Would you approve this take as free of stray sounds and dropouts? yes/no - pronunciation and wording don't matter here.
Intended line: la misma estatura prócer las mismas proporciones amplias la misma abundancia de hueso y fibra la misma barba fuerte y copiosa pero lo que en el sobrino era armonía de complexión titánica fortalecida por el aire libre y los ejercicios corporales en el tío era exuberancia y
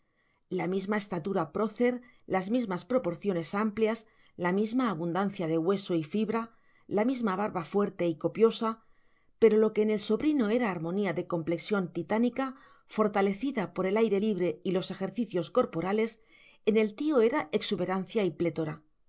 yes